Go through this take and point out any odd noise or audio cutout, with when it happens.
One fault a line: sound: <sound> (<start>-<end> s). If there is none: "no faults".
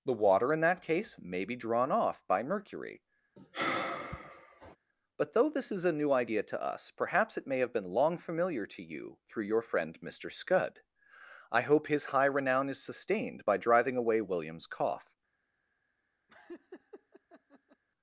sound: sigh (3.4-4.8 s)
sound: laugh (16.3-17.8 s)